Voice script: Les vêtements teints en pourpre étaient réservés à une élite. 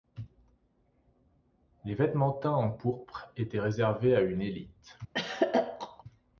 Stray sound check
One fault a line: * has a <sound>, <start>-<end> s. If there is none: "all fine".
* has a throat clearing, 5.1-6.0 s